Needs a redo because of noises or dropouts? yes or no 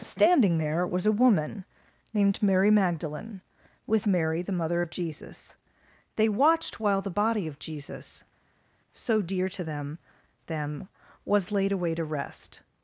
no